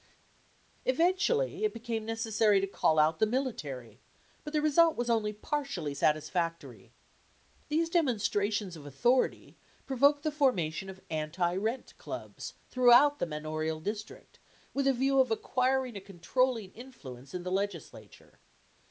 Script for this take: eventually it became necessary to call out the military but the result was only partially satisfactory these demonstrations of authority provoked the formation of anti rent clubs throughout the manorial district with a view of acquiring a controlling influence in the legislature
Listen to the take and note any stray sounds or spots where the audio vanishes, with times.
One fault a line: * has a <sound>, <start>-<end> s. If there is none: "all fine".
all fine